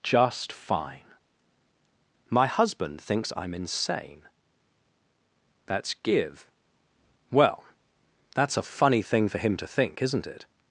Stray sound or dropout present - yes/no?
no